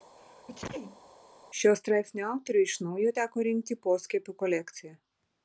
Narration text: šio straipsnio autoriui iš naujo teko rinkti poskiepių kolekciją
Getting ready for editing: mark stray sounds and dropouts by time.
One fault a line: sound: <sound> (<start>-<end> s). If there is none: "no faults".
sound: sneeze (0.2-1.1 s)